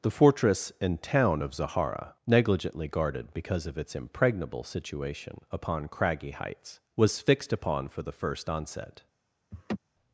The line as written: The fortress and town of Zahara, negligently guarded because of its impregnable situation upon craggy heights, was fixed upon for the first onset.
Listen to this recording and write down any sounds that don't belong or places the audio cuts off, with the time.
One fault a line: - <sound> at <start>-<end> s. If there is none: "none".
- laugh at 9.5-9.8 s